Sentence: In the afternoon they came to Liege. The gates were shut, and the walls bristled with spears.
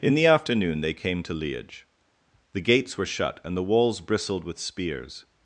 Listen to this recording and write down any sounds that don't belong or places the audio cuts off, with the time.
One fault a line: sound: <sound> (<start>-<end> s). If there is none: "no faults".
no faults